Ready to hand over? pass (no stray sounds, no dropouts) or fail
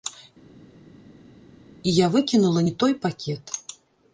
pass